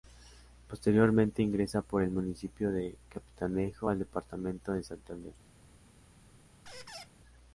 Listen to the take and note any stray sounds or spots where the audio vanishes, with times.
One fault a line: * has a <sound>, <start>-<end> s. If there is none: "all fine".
* has a squeak, 6.7-7.1 s